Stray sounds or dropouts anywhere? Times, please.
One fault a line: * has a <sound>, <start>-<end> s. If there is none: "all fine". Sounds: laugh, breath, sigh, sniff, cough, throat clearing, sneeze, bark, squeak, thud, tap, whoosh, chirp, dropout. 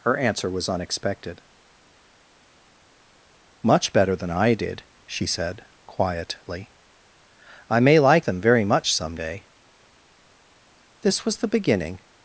all fine